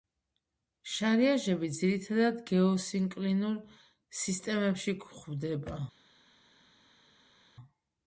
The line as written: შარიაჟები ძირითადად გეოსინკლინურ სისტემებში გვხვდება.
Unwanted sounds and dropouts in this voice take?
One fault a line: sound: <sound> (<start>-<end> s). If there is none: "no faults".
no faults